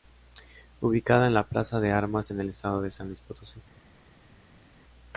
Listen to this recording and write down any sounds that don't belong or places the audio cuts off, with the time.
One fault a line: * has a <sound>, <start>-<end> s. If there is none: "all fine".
all fine